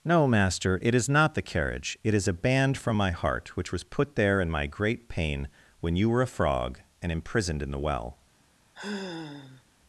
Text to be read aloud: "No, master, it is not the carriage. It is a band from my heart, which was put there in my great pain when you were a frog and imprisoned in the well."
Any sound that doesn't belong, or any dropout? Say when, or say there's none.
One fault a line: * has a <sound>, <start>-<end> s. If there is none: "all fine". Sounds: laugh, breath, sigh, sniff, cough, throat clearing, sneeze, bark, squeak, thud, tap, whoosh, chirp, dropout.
* has a sigh, 8.7-9.6 s